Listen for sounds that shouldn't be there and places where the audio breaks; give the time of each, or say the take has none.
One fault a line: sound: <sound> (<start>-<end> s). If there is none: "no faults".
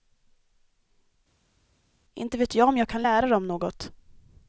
no faults